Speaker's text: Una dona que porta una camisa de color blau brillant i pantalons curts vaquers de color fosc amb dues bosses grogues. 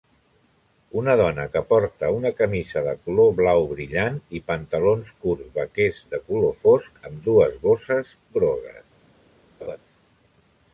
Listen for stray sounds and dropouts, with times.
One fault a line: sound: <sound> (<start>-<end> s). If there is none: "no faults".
sound: laugh (9.6-9.8 s)